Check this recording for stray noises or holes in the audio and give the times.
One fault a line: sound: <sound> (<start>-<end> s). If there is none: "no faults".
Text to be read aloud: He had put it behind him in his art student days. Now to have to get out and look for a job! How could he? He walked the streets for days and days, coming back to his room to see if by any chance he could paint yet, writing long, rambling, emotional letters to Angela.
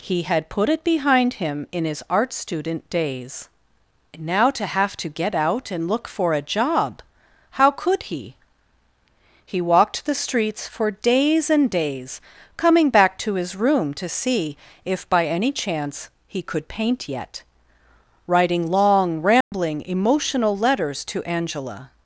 sound: dropout (19.4-19.5 s)